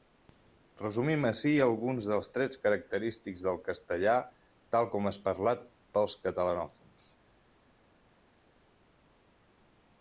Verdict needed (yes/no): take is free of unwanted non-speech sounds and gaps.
yes